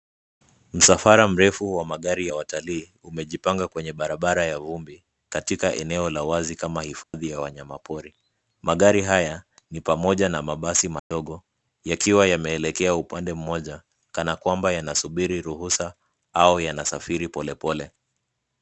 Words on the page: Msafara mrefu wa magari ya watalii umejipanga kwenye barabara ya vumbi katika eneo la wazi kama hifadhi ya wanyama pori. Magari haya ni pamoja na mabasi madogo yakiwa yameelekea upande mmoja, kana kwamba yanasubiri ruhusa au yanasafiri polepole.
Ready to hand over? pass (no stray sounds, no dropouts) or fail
fail